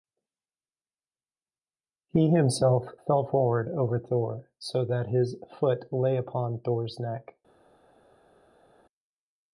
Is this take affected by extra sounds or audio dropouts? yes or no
no